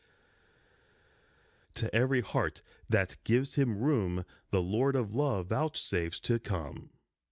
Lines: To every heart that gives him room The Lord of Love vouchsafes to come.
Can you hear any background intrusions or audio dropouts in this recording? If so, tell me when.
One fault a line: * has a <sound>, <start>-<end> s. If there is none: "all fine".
all fine